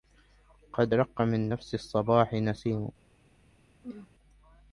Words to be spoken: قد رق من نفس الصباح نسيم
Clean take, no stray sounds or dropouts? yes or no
no